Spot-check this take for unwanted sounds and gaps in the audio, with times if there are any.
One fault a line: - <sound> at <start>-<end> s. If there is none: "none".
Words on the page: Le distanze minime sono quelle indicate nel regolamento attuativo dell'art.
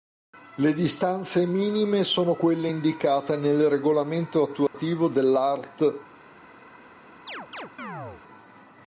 - dropout at 4.7-4.7 s
- chirp at 7.3-8.2 s